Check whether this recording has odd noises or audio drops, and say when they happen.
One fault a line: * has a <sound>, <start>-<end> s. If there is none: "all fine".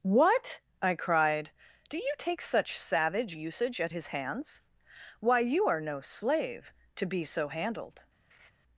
* has a laugh, 8.3-8.5 s